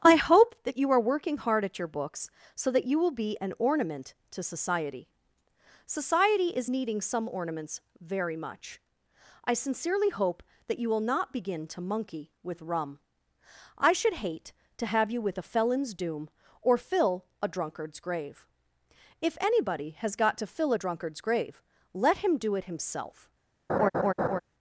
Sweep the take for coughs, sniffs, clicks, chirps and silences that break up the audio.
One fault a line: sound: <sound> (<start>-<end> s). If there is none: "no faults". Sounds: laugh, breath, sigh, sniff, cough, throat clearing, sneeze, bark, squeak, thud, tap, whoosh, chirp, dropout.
sound: laugh (23.7-24.4 s)